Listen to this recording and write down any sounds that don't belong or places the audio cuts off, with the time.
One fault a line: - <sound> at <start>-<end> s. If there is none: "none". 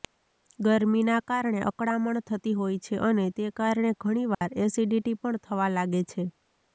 - dropout at 4.3-4.4 s